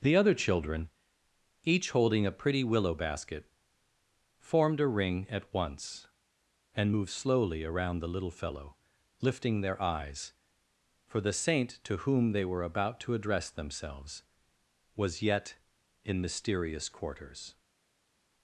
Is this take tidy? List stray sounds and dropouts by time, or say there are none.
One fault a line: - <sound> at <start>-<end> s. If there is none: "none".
none